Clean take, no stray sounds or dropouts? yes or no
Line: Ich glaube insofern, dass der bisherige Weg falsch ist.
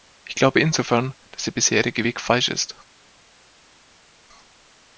yes